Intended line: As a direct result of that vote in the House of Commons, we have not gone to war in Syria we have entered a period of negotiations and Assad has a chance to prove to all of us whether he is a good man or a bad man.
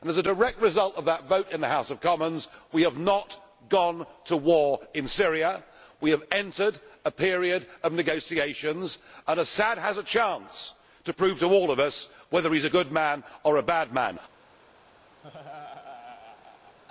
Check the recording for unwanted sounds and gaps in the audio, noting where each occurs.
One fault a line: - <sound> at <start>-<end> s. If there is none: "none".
- laugh at 15.2-16.8 s